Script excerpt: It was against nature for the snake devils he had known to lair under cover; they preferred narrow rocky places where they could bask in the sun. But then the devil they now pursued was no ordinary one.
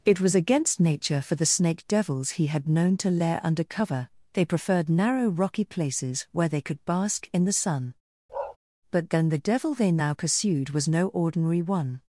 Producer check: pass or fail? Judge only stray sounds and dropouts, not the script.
fail